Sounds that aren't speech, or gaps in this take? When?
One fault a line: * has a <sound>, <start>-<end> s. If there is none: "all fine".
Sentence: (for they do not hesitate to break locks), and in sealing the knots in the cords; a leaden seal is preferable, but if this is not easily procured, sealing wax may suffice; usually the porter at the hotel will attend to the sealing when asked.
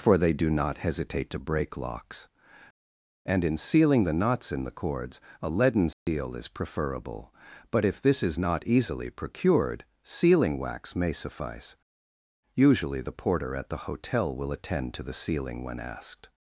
* has a dropout, 5.9-6.1 s